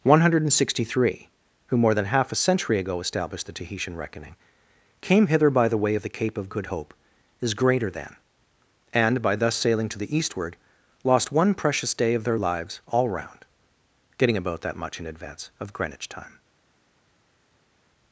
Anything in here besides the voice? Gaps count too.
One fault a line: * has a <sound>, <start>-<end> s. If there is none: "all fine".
all fine